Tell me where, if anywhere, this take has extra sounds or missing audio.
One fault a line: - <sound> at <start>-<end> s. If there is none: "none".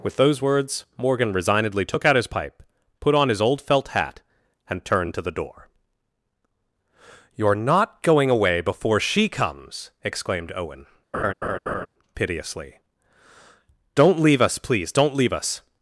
- laugh at 11.1-11.9 s